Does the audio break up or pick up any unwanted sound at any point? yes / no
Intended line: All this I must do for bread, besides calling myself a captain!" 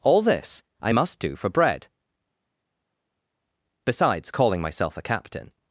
no